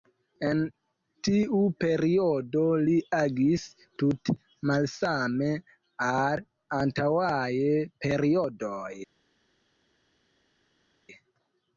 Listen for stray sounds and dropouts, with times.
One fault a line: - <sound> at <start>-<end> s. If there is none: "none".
none